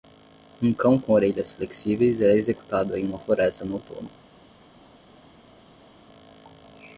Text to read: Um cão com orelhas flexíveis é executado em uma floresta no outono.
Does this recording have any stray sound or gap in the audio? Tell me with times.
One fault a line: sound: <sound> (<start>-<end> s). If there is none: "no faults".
no faults